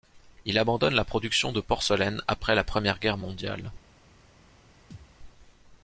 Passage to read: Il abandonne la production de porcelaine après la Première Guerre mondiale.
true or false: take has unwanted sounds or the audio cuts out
true